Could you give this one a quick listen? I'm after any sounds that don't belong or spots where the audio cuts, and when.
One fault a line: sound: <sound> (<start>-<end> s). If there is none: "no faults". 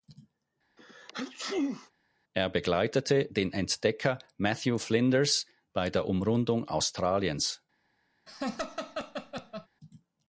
sound: sneeze (0.8-1.9 s)
sound: laugh (8.3-9.7 s)